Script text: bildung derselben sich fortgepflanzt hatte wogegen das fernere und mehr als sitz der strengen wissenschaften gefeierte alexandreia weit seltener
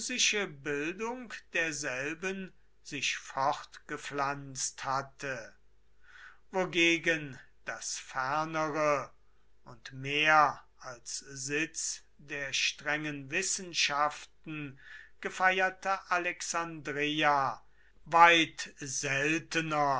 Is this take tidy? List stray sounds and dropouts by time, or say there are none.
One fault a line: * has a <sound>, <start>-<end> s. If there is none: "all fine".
all fine